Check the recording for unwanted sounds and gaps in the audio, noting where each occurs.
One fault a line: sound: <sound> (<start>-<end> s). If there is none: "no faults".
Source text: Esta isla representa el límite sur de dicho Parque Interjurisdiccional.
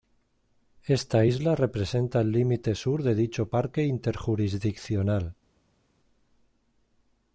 no faults